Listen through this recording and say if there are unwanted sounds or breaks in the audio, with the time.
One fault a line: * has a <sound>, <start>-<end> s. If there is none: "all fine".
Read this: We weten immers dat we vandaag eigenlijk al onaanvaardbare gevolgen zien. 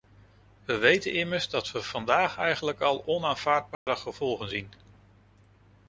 * has a dropout, 3.7-3.9 s